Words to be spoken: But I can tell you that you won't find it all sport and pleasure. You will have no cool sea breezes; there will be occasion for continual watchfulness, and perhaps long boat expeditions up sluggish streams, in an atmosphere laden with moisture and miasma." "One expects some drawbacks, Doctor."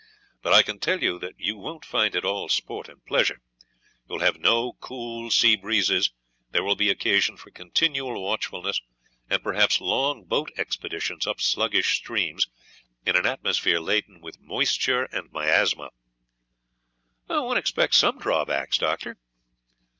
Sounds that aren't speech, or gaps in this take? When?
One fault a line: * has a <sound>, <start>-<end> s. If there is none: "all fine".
all fine